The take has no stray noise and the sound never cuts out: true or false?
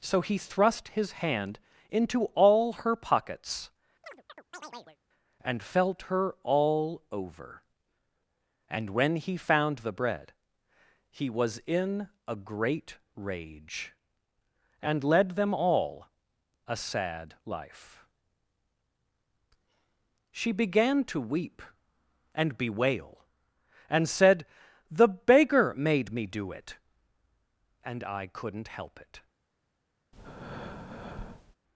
false